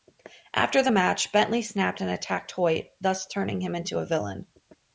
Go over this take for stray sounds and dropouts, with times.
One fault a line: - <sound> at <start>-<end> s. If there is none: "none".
none